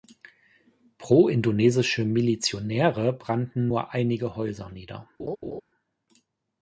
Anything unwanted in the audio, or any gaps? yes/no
yes